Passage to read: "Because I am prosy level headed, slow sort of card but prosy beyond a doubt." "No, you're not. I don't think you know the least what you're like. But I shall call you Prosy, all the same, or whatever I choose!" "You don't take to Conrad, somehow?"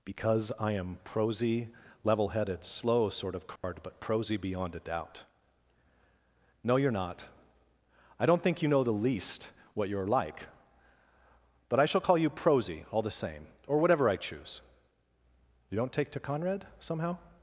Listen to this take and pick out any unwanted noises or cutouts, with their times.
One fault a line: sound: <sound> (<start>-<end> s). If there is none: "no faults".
sound: dropout (3.6-3.6 s)